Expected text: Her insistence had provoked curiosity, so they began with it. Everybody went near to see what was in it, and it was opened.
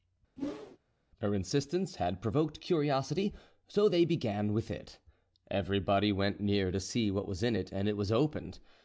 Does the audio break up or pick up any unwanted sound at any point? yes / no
yes